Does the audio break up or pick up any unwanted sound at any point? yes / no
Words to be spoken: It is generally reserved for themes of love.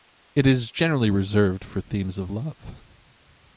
no